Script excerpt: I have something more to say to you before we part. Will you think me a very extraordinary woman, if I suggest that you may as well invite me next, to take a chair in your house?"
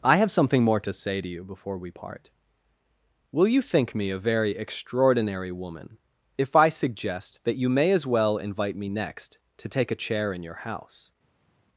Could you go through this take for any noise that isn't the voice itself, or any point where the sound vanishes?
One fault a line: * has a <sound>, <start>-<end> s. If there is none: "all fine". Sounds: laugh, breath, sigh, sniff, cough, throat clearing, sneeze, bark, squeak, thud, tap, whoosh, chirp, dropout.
all fine